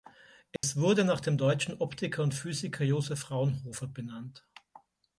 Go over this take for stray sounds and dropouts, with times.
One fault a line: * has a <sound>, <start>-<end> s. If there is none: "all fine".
* has a dropout, 0.6-0.6 s